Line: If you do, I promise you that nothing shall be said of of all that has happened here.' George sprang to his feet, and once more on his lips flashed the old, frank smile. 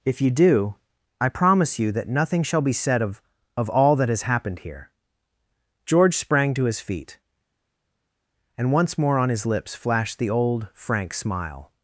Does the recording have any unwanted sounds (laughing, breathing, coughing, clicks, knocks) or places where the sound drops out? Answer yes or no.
no